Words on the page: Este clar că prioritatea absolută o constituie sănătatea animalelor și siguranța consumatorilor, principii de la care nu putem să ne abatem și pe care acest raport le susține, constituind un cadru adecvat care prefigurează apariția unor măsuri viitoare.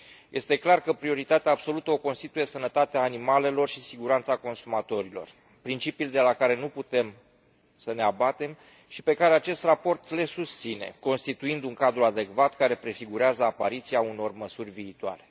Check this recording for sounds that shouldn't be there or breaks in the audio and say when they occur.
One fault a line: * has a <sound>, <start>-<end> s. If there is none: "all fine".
all fine